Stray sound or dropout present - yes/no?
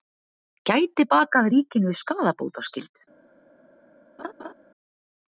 yes